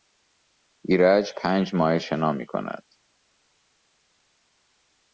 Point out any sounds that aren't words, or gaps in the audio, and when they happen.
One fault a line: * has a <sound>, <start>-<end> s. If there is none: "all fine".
all fine